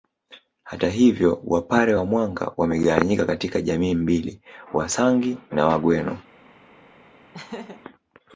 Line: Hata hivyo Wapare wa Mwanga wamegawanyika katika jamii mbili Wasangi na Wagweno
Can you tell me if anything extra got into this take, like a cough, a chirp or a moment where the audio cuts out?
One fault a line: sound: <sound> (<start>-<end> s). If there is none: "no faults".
sound: laugh (7.3-7.8 s)